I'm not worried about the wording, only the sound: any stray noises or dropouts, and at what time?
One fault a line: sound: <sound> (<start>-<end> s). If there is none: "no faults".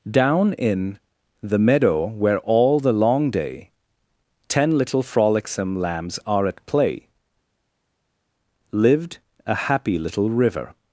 no faults